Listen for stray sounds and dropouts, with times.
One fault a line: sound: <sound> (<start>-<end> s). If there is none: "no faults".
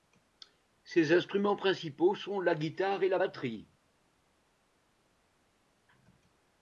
no faults